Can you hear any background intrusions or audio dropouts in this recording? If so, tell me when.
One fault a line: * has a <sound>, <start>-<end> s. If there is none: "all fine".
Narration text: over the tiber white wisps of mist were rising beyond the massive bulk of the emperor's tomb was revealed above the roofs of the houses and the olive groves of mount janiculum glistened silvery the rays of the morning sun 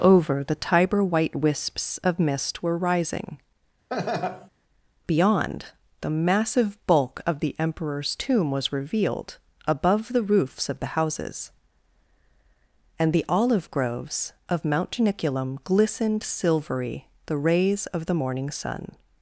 * has a laugh, 3.9-4.5 s